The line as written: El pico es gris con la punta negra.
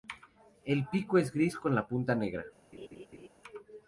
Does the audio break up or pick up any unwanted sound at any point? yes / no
yes